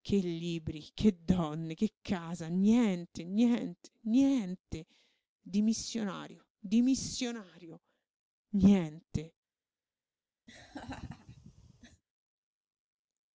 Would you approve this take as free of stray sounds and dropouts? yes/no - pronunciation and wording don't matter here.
no